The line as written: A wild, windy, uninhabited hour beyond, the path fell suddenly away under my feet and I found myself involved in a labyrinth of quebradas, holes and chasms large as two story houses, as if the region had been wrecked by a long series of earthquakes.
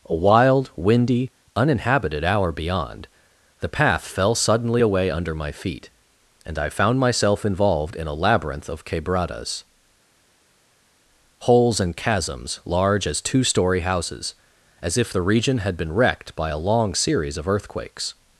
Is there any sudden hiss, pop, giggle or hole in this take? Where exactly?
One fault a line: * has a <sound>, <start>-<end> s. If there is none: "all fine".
all fine